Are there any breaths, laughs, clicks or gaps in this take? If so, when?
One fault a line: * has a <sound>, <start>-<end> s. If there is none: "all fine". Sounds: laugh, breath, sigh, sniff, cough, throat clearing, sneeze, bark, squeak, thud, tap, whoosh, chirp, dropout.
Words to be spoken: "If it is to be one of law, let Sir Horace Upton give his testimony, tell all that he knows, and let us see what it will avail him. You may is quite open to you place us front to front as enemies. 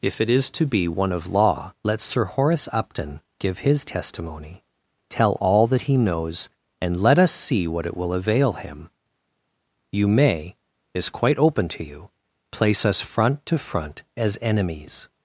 all fine